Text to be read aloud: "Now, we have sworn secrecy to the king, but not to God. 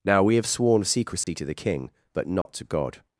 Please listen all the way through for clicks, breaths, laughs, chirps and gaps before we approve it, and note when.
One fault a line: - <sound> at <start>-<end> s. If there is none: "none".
- dropout at 1.2-1.3 s
- dropout at 2.4-2.5 s